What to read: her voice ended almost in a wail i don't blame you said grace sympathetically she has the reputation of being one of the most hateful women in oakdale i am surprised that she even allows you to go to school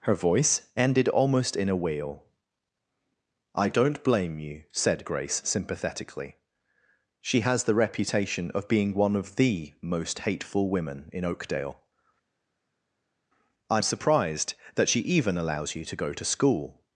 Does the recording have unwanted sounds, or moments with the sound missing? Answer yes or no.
no